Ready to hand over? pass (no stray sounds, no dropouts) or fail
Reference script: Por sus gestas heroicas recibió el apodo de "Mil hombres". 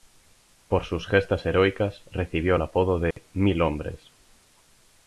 fail